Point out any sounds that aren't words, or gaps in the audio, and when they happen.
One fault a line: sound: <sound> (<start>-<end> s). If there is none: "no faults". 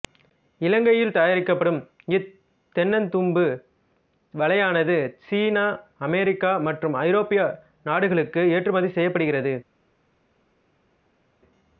no faults